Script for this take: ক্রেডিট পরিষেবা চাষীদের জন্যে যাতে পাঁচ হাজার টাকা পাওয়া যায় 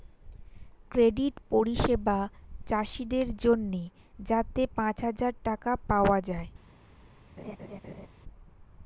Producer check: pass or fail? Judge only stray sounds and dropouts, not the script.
fail